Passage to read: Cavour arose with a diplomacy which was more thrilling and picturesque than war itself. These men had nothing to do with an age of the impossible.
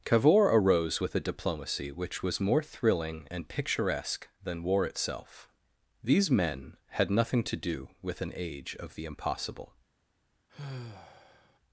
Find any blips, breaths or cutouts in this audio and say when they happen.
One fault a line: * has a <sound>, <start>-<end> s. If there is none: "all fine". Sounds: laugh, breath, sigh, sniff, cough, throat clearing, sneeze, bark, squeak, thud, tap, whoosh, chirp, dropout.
* has a sigh, 10.5-11.6 s